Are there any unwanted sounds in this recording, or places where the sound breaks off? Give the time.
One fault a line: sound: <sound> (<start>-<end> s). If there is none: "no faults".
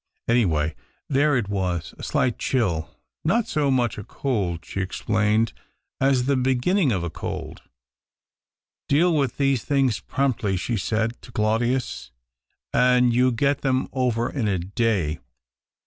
no faults